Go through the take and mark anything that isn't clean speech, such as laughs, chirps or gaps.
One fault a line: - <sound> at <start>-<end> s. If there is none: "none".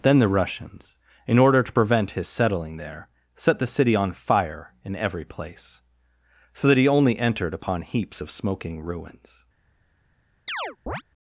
- chirp at 10.5-11.0 s